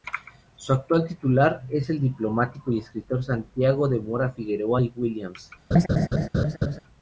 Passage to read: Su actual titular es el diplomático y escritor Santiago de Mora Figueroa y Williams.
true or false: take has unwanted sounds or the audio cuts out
true